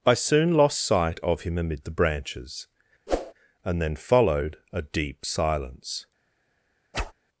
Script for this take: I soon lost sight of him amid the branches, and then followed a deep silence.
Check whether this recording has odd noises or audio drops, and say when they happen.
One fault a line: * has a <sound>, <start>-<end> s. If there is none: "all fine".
* has a whoosh, 3.1-3.3 s
* has a whoosh, 6.9-7.1 s